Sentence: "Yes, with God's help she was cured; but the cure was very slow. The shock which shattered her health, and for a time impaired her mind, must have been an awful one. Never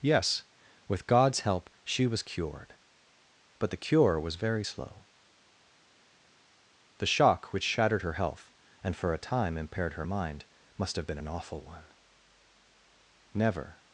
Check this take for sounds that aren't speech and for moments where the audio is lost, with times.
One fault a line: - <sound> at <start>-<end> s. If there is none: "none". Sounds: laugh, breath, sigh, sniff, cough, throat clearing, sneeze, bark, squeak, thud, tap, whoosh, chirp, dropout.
none